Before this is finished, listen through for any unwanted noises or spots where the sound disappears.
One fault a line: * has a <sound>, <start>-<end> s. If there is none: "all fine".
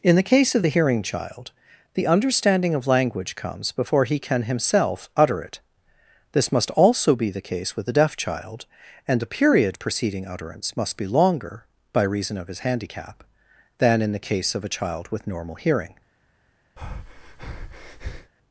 * has a breath, 16.8-18.3 s